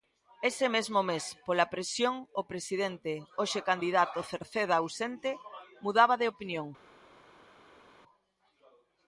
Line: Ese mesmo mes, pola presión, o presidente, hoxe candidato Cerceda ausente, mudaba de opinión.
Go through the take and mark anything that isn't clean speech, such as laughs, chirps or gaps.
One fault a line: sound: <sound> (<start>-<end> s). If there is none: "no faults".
no faults